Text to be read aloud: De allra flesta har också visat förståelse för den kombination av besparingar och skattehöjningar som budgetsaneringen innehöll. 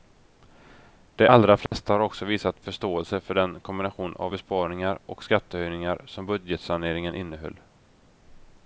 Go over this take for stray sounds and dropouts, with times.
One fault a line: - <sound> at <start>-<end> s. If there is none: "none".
- dropout at 1.7-1.7 s